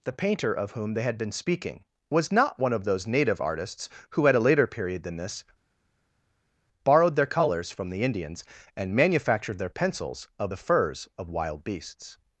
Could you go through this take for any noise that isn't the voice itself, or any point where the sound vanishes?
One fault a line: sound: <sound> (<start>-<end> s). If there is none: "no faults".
no faults